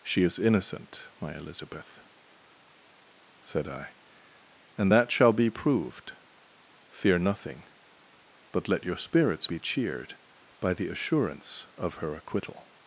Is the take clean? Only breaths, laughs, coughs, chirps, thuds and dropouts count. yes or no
yes